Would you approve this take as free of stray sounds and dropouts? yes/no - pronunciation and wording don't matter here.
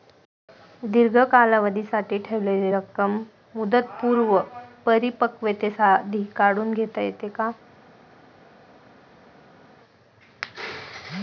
yes